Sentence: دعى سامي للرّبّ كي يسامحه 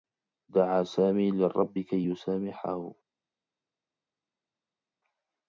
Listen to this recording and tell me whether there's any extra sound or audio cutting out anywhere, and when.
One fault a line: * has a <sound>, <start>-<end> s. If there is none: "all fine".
all fine